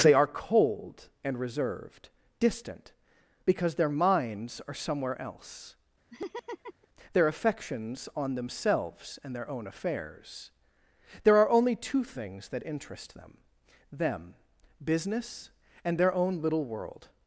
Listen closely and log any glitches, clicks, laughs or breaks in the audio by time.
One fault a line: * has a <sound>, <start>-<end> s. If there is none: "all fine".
* has a laugh, 6.1-6.9 s